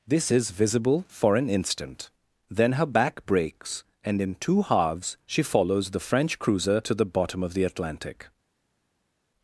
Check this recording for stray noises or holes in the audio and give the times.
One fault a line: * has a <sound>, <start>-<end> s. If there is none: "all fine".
all fine